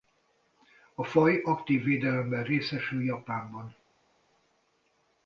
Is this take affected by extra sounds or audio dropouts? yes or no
no